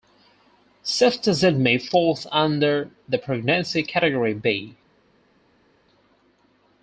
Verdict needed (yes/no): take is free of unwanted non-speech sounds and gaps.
yes